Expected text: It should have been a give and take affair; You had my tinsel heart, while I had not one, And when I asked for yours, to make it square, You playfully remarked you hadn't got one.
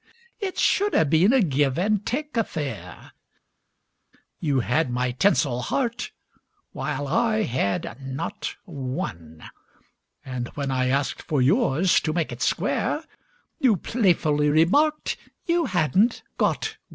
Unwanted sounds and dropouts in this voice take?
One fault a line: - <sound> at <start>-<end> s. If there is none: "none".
none